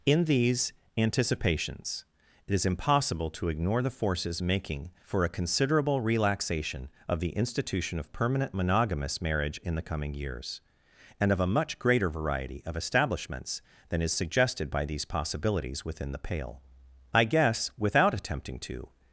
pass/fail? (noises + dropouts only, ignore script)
pass